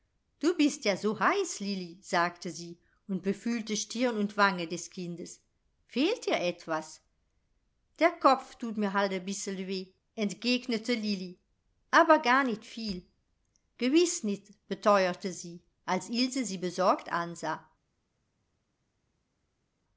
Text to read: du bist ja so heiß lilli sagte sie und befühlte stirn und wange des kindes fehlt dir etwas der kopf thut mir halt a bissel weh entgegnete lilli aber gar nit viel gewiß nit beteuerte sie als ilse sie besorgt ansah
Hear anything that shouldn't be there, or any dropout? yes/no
no